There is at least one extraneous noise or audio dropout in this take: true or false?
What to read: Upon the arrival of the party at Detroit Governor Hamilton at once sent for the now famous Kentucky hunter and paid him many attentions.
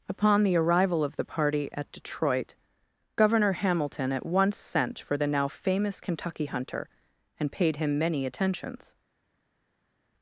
false